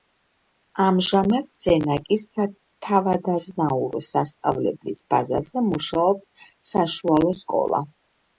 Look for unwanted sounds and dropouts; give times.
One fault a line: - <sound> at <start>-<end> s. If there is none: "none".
none